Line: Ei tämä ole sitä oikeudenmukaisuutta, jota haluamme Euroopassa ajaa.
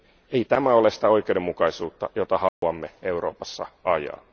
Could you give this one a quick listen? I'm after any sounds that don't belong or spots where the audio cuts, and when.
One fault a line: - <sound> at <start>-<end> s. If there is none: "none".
- dropout at 2.5-2.6 s